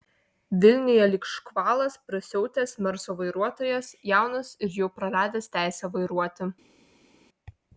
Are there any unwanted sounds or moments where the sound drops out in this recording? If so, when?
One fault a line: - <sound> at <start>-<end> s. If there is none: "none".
none